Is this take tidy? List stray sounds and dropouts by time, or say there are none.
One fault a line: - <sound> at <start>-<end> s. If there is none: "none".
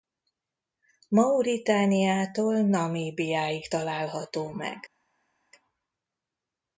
none